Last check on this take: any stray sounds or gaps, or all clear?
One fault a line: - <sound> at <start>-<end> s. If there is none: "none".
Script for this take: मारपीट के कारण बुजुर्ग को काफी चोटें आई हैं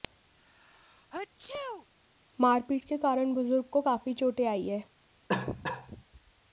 - sneeze at 0.4-1.9 s
- cough at 5.3-6.0 s